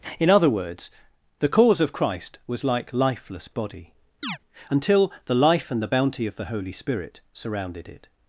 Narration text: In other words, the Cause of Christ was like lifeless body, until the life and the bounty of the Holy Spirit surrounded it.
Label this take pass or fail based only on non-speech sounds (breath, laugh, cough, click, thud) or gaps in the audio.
fail